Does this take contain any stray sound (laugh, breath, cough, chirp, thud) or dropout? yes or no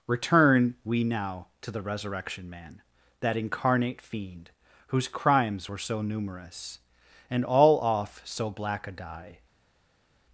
no